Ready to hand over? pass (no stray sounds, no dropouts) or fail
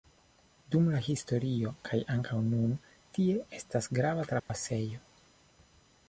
fail